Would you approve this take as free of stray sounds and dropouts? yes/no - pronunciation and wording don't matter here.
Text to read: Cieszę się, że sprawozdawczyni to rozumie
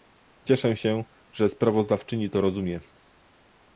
yes